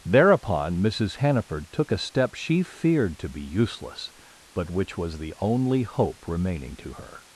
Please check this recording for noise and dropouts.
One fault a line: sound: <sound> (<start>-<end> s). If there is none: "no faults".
no faults